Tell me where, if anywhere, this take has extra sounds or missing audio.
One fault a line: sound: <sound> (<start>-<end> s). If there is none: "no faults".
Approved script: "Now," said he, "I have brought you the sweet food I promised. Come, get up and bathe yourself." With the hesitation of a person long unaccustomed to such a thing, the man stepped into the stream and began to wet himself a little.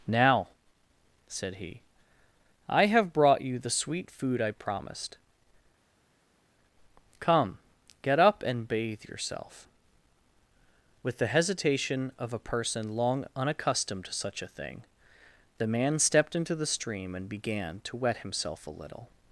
no faults